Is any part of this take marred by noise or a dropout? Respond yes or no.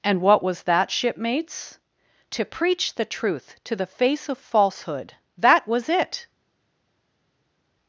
no